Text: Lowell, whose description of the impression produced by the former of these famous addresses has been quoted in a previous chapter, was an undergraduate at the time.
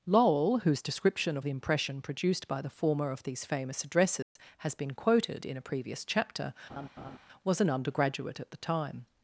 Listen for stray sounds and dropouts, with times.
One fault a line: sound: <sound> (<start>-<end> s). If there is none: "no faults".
sound: dropout (4.2-4.4 s)
sound: laugh (6.7-7.2 s)